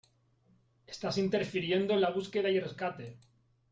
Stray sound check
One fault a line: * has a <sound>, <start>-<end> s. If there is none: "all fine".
all fine